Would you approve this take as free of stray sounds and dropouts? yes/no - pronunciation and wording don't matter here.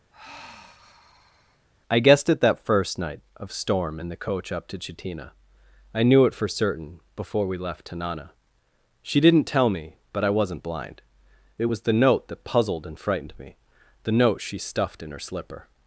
no